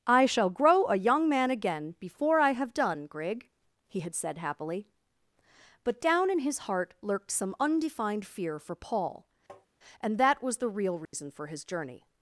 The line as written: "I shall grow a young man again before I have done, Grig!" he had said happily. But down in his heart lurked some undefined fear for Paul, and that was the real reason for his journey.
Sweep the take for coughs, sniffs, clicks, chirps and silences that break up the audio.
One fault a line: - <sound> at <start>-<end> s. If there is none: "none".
- tap at 9.5-9.7 s
- dropout at 11.1-11.1 s